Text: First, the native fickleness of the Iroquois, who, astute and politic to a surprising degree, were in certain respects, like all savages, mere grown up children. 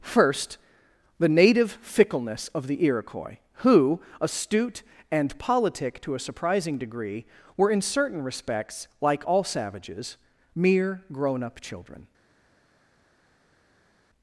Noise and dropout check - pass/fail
pass